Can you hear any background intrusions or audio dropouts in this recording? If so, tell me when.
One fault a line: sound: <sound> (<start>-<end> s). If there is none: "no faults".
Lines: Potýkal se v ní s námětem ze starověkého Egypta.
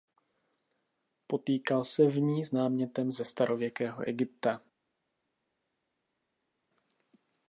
no faults